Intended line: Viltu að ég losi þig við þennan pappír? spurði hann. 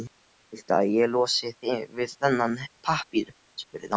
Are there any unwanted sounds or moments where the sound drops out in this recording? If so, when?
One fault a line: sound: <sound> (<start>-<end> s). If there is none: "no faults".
no faults